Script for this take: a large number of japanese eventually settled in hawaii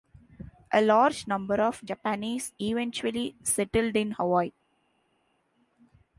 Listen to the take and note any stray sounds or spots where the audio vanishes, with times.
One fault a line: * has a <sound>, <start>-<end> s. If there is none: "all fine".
all fine